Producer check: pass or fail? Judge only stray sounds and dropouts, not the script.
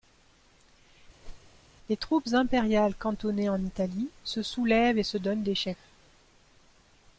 fail